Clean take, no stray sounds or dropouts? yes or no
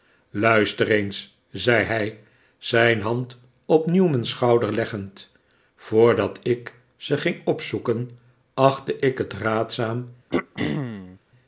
no